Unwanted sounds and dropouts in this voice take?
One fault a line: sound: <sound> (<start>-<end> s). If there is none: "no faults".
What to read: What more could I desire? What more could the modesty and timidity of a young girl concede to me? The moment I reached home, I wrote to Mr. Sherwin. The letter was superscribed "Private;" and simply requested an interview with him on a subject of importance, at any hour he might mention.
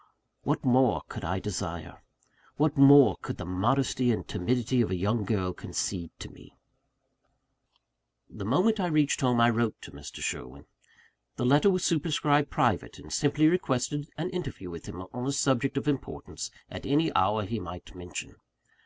no faults